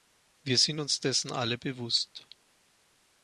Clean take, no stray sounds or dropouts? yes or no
yes